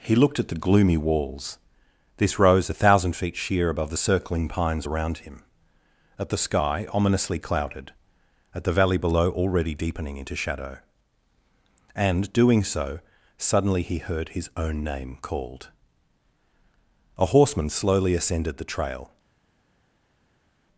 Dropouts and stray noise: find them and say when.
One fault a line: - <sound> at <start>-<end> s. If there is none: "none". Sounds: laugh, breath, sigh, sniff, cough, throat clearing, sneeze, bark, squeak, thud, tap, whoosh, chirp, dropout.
none